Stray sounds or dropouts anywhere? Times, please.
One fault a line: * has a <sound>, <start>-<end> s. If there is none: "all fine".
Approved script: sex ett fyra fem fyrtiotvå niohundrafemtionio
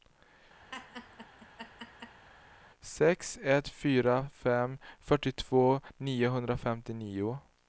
* has a laugh, 0.7-2.3 s